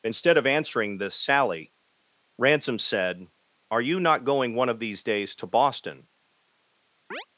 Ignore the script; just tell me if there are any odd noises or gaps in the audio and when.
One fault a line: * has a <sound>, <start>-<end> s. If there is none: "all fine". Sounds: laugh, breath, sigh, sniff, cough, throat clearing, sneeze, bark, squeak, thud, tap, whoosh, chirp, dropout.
* has a chirp, 7.1-7.3 s